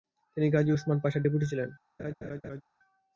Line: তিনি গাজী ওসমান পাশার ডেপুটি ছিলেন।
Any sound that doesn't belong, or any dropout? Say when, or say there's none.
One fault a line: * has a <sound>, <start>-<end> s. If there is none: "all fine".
* has a laugh, 2.0-2.6 s